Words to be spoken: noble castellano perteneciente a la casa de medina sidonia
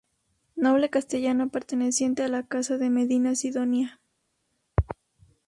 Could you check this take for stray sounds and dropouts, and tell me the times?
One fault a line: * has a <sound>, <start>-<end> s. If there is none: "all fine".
all fine